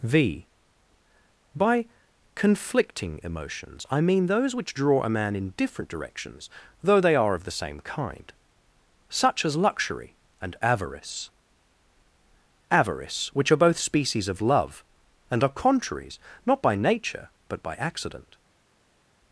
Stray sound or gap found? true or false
false